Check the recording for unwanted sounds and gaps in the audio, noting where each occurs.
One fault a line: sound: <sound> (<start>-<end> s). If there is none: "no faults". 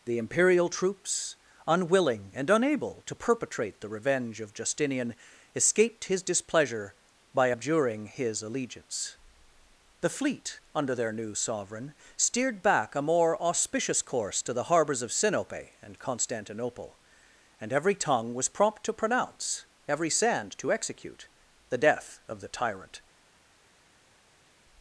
no faults